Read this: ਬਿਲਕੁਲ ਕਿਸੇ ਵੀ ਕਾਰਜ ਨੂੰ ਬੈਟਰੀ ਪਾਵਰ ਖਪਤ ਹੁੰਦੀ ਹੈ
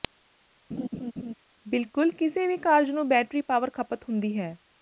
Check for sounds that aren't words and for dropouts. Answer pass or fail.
fail